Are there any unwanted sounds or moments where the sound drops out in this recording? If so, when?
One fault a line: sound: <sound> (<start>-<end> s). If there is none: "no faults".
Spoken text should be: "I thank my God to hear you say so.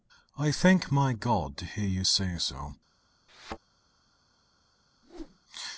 sound: thud (3.3-3.6 s)
sound: whoosh (5.0-5.4 s)